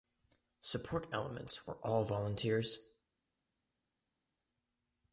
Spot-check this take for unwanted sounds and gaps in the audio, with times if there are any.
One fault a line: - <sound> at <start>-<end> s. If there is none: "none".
none